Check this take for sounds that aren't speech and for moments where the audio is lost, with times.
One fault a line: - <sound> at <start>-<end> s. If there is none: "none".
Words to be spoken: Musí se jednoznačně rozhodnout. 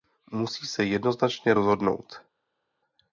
none